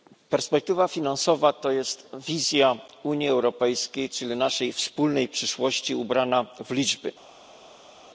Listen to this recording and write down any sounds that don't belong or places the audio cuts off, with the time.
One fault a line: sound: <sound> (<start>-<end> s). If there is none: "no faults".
no faults